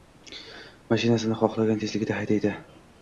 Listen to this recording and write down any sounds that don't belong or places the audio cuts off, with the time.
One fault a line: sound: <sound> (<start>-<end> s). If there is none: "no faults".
no faults